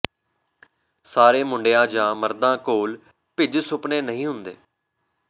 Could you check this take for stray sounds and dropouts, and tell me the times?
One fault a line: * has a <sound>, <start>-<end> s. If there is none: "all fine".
all fine